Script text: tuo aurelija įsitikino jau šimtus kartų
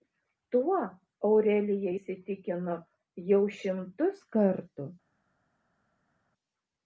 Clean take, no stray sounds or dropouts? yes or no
yes